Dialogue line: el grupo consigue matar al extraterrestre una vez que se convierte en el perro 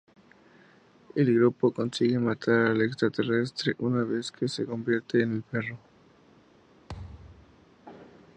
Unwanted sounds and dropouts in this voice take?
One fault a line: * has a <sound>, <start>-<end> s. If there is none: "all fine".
* has a thud, 6.9-7.7 s